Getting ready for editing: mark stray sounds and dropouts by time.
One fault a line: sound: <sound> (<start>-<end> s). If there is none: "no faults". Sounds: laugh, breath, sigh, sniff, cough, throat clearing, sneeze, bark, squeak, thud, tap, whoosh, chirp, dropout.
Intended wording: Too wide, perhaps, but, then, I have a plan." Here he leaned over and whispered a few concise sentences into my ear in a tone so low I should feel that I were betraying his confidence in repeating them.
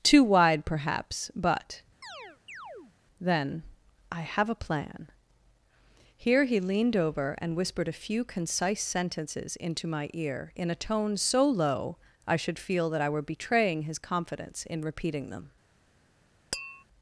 sound: chirp (2.0-2.9 s)
sound: tap (16.5-16.8 s)